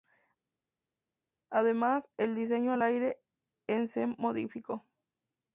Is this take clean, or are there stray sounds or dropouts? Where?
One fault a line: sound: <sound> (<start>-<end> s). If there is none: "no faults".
no faults